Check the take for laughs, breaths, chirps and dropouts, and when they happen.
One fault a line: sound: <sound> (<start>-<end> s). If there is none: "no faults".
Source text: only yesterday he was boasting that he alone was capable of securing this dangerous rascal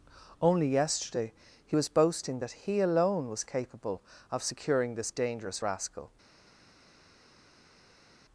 no faults